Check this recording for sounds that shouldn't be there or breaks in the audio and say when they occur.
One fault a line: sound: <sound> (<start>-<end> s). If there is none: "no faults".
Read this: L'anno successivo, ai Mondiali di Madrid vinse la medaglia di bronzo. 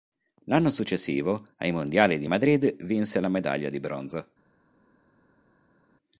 no faults